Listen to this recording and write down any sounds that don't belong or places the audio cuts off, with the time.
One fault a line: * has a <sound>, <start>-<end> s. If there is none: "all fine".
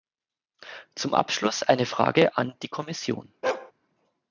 * has a bark, 3.4-3.7 s